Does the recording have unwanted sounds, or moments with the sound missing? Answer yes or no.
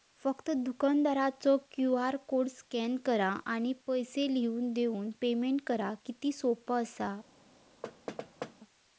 yes